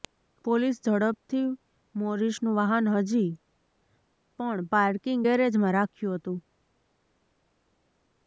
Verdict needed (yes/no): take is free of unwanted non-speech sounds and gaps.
yes